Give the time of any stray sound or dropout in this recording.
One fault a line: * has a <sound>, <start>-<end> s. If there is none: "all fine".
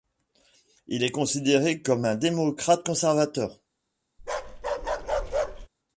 * has a bark, 4.2-5.7 s